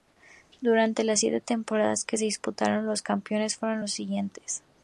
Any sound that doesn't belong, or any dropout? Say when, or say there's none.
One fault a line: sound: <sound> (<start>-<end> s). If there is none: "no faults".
no faults